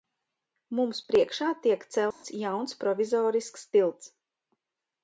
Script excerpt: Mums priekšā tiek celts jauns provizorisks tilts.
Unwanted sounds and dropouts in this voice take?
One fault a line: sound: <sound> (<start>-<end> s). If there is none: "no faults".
sound: dropout (2.1-2.2 s)